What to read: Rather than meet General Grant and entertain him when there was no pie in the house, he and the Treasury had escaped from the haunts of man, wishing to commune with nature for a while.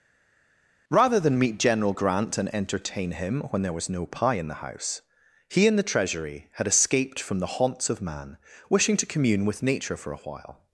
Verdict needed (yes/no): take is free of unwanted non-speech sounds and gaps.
yes